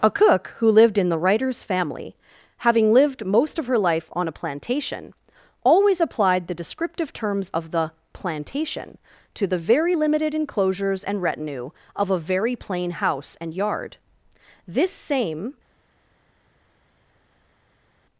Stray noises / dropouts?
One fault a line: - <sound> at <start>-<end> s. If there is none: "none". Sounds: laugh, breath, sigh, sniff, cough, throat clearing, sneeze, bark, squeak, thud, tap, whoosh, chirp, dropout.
none